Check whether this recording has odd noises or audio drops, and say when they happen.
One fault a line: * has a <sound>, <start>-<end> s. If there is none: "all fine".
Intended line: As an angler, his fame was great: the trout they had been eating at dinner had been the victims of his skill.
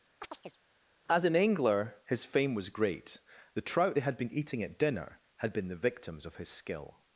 * has a chirp, 0.2-0.6 s